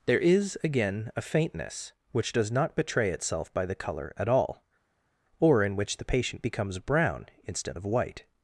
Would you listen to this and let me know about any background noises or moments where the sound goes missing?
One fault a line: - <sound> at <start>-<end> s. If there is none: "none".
none